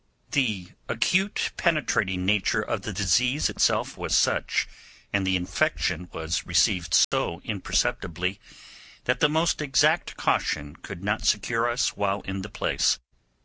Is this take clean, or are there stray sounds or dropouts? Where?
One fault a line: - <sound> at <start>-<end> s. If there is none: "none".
- dropout at 7.0-7.1 s